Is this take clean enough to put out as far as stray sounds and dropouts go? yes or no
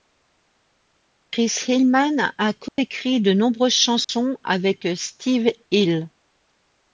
no